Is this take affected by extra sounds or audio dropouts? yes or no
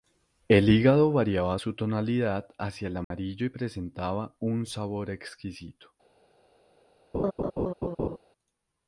yes